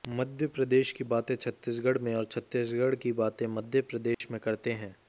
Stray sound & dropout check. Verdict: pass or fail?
fail